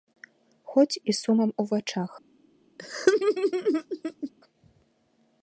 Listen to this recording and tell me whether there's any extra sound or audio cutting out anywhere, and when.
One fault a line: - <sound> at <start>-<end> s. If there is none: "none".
- laugh at 2.8-4.3 s